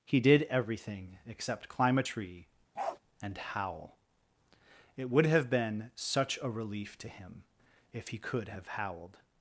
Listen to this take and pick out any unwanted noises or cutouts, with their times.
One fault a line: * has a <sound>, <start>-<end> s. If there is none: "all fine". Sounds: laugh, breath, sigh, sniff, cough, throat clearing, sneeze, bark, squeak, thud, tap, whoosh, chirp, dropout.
* has a bark, 2.7-3.0 s